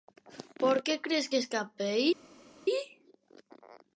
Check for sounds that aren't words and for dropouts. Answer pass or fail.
pass